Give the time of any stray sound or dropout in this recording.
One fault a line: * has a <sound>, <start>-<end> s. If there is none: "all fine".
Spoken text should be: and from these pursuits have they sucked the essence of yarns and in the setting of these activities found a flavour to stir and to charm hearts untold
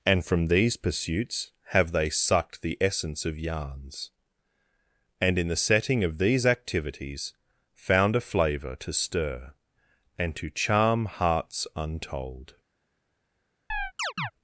* has a chirp, 13.7-14.3 s